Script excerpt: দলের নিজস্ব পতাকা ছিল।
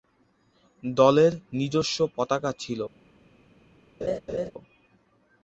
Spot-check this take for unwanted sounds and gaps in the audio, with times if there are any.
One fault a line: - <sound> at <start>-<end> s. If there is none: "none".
- laugh at 4.0-4.5 s